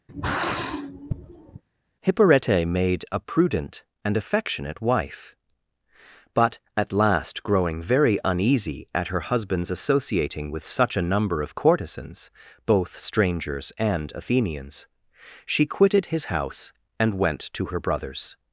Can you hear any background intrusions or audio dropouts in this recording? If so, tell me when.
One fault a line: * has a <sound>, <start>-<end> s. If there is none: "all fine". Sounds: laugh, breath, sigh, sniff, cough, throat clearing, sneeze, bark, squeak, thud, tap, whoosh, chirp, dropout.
* has a sigh, 0.1-1.6 s